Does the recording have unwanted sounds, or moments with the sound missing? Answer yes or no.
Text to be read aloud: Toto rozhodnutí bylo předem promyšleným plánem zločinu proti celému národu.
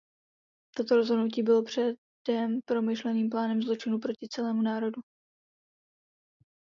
no